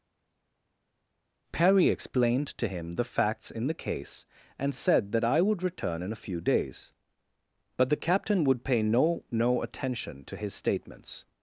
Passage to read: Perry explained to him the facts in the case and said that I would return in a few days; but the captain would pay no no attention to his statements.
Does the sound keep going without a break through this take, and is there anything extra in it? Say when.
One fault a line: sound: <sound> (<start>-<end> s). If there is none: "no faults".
no faults